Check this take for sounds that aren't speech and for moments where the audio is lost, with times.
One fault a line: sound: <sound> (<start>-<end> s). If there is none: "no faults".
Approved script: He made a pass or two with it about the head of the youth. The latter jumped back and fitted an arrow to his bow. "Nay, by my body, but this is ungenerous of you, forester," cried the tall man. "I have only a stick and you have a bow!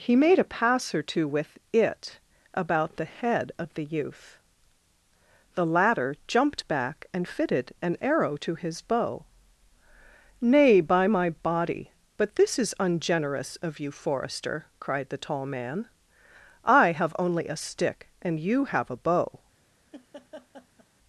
sound: laugh (19.9-20.9 s)